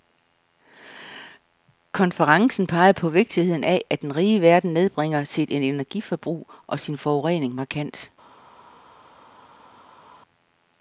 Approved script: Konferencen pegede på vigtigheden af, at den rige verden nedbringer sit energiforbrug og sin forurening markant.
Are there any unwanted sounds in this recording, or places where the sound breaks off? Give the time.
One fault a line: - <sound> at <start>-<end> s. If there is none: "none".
none